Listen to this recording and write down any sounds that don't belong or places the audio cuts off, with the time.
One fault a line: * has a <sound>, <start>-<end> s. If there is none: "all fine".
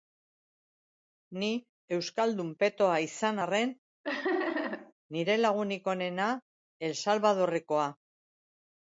* has a laugh, 4.0-4.9 s